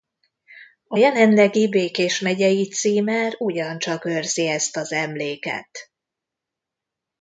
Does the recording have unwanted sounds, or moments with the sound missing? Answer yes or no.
no